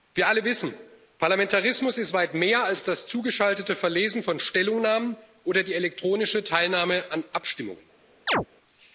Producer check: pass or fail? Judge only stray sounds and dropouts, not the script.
fail